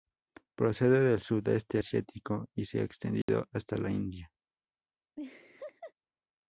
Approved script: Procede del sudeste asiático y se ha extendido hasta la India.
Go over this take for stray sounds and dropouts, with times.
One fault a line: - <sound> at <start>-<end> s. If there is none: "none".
- dropout at 3.2-3.3 s
- laugh at 5.2-5.9 s